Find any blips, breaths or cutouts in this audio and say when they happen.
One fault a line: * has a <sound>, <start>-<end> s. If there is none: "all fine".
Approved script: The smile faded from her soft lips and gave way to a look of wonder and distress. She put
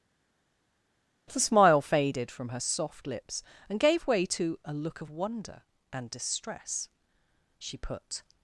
all fine